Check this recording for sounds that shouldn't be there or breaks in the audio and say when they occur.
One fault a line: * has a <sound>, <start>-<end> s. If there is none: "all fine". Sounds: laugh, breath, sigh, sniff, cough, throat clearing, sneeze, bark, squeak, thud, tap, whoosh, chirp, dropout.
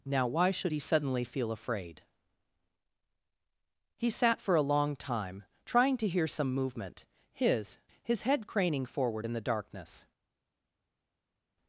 all fine